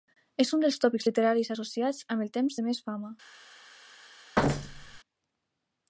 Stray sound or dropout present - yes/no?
yes